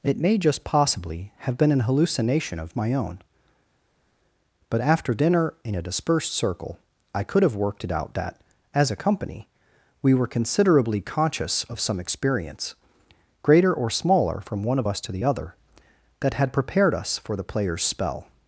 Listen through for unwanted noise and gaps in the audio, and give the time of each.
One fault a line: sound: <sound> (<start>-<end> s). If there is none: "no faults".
no faults